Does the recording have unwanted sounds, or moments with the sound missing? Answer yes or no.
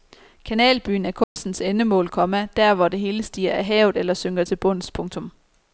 yes